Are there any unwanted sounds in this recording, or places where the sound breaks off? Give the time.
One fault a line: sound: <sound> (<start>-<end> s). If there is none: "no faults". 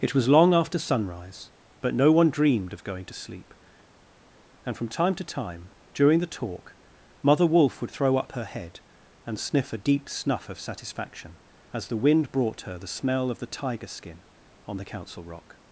no faults